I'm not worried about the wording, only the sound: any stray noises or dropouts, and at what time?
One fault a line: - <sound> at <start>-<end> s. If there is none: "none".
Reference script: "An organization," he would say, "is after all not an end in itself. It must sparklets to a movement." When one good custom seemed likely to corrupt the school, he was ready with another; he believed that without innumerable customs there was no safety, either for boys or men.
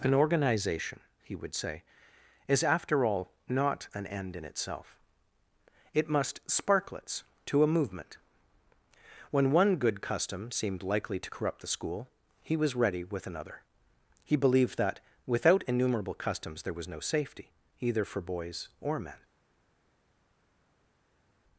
none